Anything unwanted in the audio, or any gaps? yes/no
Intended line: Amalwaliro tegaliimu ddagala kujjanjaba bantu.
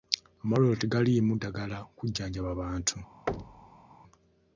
yes